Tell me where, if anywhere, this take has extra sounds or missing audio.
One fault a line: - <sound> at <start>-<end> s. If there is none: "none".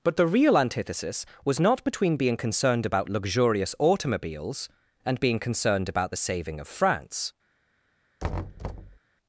- thud at 8.2-9.0 s